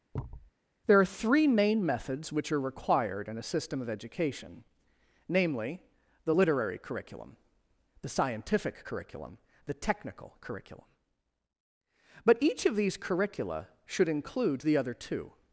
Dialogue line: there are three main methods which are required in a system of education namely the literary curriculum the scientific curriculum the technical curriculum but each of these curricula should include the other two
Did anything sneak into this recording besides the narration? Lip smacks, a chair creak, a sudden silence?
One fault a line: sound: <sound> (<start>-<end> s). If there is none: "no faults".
sound: thud (0.1-0.5 s)